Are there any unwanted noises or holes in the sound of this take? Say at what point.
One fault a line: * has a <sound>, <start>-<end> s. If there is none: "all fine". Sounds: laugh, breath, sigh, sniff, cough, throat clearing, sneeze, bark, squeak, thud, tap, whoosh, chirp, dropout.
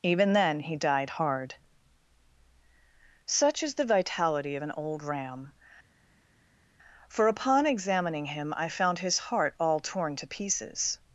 all fine